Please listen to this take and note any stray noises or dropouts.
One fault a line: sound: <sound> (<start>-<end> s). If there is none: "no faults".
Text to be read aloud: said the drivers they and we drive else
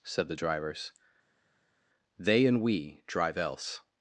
no faults